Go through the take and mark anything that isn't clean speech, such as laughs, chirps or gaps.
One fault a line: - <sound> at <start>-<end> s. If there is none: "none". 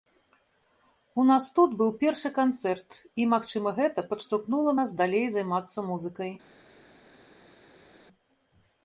none